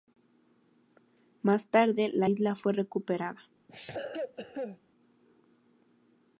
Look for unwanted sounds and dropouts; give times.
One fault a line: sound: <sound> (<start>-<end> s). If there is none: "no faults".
sound: cough (3.7-4.8 s)